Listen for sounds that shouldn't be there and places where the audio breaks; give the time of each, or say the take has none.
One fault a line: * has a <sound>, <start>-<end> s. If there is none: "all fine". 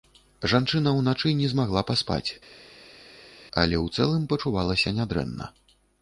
all fine